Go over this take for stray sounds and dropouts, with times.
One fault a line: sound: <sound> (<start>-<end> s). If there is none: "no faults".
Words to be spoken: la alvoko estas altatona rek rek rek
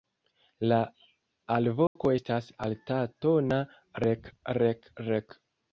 sound: dropout (1.9-2.0 s)